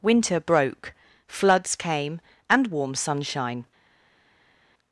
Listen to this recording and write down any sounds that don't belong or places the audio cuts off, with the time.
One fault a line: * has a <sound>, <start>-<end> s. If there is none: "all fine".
all fine